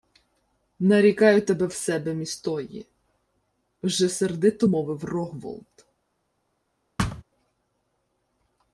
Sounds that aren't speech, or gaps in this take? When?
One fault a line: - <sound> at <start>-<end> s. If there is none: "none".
- thud at 7.0-7.2 s